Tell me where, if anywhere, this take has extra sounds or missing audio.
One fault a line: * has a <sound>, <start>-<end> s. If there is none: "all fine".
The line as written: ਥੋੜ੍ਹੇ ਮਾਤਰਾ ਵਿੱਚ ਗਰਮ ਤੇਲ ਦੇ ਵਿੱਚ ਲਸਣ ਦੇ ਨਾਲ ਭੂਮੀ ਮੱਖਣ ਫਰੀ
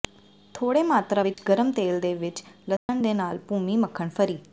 * has a dropout, 1.3-1.4 s
* has a dropout, 2.8-2.9 s